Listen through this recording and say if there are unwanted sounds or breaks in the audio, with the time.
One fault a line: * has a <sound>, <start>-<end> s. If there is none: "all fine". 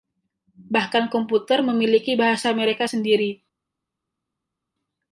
all fine